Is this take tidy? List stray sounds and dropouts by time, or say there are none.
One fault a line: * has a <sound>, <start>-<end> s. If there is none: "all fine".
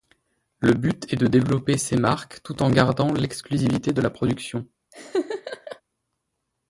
* has a laugh, 4.9-5.8 s